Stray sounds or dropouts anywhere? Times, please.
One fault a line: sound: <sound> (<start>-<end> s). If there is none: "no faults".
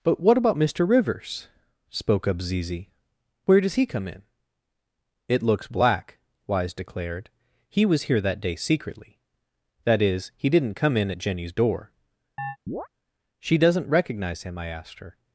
sound: chirp (12.4-12.9 s)